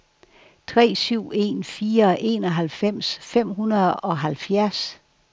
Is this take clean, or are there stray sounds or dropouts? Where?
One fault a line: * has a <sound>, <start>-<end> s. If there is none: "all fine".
all fine